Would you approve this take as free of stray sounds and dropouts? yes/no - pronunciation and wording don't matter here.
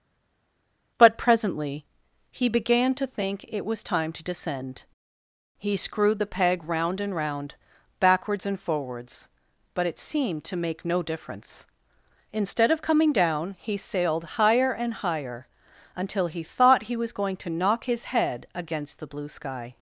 yes